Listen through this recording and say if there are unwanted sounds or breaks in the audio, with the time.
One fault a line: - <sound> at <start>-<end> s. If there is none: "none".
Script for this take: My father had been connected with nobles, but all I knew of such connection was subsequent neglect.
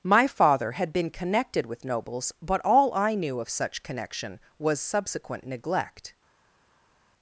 none